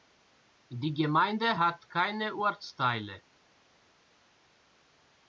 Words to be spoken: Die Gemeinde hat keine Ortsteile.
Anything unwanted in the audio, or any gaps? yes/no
no